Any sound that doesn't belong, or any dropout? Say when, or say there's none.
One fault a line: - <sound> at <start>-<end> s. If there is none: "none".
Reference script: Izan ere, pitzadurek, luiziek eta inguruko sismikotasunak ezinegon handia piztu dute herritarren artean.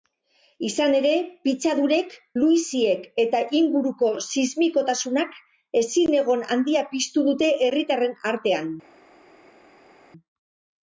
none